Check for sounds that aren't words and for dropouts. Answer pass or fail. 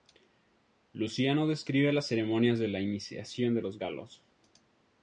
pass